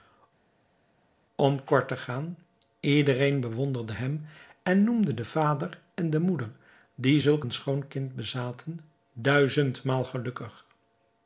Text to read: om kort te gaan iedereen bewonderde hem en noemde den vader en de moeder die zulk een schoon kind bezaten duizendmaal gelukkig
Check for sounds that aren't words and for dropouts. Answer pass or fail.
pass